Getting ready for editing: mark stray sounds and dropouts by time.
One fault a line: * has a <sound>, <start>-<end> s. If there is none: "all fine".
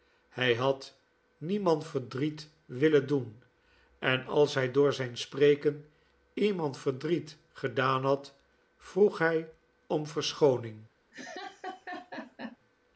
* has a laugh, 11.1-12.6 s